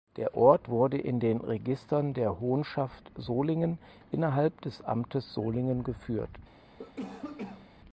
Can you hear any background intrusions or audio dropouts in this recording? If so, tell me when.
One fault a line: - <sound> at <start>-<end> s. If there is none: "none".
- cough at 6.8-7.7 s